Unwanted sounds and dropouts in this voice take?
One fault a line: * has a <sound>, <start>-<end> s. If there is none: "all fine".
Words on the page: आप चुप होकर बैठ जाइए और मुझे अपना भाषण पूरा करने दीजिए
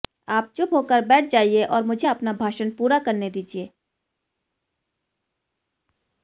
all fine